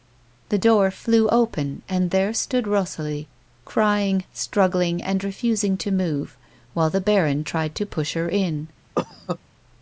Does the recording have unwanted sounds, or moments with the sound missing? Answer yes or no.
yes